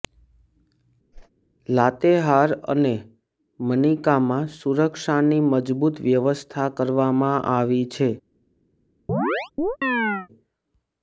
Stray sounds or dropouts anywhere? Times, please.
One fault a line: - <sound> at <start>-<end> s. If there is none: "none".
- whoosh at 1.1-1.3 s
- chirp at 9.1-10.3 s